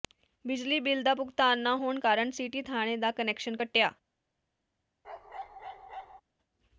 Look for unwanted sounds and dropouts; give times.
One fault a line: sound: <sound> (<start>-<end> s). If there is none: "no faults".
sound: bark (5.0-6.2 s)